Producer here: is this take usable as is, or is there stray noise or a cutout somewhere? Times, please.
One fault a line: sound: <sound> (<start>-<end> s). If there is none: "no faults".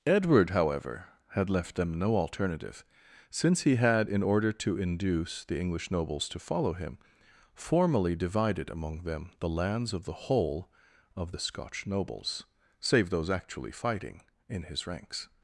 no faults